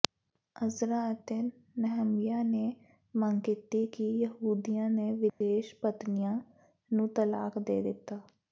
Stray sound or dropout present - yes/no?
yes